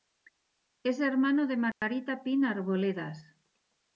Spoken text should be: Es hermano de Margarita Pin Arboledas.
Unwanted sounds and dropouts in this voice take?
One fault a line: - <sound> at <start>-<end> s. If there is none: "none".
- dropout at 1.7-1.8 s